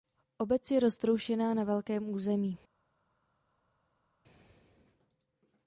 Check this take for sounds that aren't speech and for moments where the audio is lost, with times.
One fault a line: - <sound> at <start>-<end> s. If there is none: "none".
none